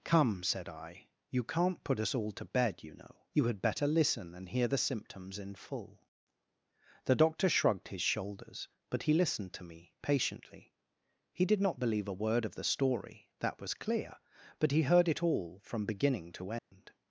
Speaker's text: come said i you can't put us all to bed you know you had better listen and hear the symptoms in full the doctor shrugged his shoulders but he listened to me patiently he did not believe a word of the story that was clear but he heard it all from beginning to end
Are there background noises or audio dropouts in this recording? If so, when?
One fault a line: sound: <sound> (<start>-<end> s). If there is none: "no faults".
sound: dropout (16.6-16.7 s)